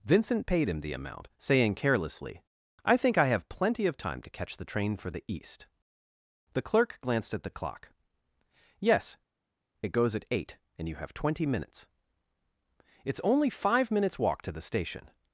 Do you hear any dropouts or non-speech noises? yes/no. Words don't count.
no